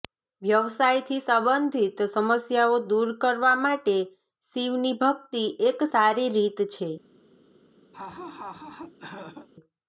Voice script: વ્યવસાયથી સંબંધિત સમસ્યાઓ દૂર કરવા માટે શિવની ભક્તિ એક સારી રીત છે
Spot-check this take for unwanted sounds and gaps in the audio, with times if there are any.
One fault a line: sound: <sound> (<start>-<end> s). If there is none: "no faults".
sound: laugh (7.9-9.5 s)